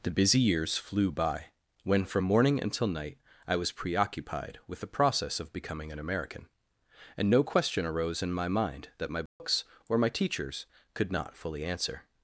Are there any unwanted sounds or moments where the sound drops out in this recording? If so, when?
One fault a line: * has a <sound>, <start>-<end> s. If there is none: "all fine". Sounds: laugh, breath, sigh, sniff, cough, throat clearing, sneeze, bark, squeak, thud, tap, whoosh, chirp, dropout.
* has a dropout, 9.3-9.4 s